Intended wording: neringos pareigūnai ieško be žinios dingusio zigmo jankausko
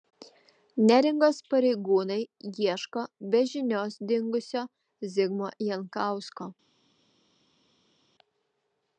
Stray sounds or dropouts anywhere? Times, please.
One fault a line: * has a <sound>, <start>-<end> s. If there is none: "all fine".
all fine